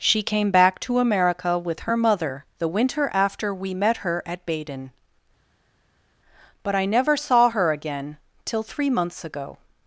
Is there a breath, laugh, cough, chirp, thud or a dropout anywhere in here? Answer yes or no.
no